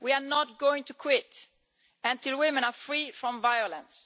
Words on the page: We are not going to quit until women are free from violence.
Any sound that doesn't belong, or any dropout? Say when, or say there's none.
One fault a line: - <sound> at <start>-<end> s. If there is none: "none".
none